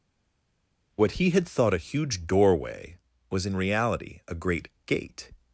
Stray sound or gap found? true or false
false